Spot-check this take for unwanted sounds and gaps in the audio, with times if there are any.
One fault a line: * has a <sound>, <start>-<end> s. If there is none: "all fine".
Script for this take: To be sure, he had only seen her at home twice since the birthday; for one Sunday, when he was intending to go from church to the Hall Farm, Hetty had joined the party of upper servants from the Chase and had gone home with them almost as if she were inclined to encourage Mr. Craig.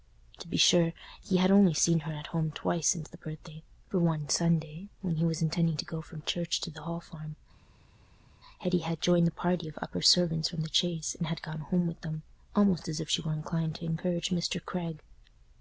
all fine